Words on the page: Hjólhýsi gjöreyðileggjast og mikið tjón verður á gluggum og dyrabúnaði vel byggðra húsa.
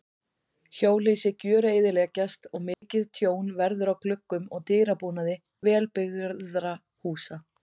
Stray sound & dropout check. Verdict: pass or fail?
fail